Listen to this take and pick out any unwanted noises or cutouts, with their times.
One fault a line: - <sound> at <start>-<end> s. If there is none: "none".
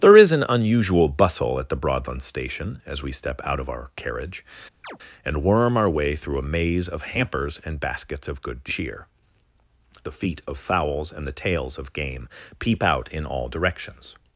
- chirp at 4.8-5.0 s